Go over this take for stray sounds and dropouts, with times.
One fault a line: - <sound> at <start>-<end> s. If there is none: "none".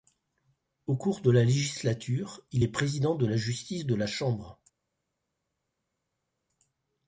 none